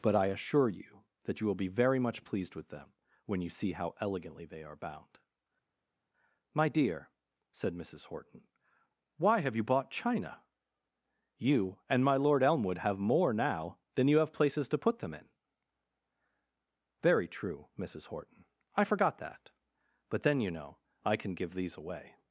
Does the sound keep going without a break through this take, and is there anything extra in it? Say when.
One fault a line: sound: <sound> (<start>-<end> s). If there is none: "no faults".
no faults